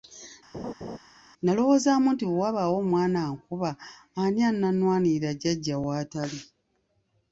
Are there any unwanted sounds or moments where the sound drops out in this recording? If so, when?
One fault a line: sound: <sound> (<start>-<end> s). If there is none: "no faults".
sound: laugh (0.5-1.0 s)